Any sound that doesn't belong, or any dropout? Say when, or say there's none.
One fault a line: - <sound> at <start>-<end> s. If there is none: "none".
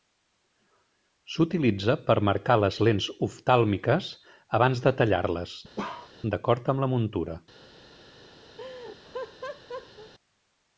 - bark at 5.8-6.1 s
- laugh at 8.6-10.1 s